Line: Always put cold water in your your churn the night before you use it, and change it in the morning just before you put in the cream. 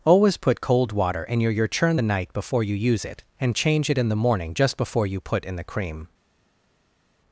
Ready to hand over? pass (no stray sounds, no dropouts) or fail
pass